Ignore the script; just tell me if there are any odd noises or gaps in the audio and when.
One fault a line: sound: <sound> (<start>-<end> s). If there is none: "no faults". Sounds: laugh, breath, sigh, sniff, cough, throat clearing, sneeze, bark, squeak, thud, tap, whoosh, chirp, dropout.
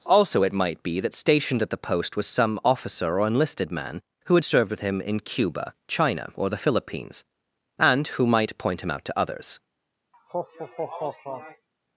sound: laugh (10.1-11.7 s)